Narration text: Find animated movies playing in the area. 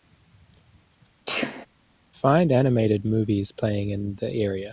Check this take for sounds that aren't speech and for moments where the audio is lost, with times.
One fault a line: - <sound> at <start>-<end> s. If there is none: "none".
- sneeze at 1.3-1.7 s